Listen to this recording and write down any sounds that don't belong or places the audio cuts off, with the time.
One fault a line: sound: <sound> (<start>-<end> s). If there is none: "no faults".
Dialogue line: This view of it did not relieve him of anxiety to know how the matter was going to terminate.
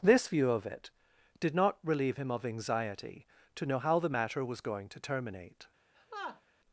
sound: laugh (5.9-6.4 s)